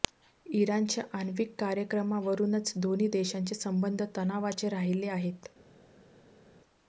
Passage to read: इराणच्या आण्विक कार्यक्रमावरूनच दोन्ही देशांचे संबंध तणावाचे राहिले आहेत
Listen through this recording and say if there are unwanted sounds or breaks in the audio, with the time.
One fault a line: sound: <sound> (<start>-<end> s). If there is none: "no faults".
no faults